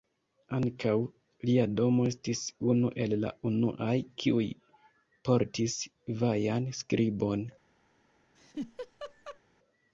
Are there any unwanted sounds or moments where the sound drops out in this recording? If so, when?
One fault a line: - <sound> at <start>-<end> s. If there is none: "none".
- laugh at 8.4-9.4 s